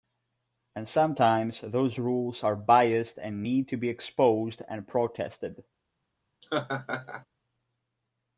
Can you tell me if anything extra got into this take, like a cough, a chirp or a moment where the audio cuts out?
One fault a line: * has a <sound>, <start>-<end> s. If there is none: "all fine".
* has a laugh, 6.4-7.3 s